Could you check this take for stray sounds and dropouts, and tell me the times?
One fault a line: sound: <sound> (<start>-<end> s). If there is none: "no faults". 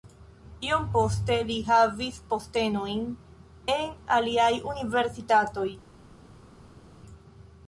no faults